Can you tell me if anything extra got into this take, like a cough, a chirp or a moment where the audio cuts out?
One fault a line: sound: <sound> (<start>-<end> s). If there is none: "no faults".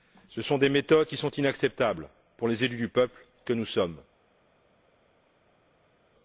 no faults